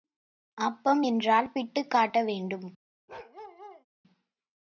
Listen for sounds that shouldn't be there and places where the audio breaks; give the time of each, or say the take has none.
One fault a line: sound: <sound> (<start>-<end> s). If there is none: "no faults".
sound: bark (3.1-3.9 s)